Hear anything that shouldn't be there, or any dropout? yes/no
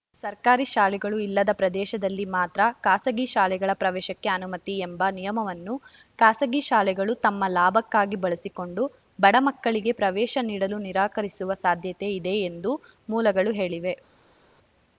no